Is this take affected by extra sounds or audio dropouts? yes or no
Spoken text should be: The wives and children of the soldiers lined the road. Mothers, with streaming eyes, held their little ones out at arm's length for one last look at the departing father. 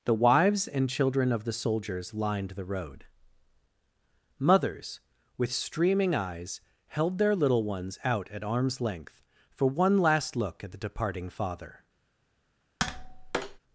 yes